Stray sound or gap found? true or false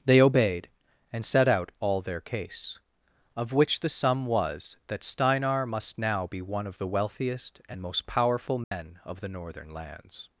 true